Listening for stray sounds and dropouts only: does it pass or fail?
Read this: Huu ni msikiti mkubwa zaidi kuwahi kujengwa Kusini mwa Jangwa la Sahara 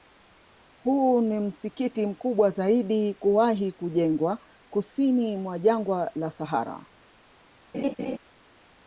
fail